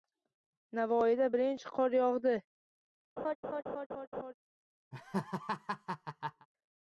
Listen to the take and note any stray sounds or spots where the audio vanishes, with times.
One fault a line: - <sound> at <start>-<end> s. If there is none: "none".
- laugh at 3.2-4.3 s
- laugh at 4.9-6.5 s